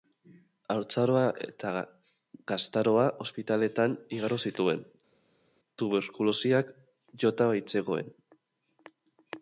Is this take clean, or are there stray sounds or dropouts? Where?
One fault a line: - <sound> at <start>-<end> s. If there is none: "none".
none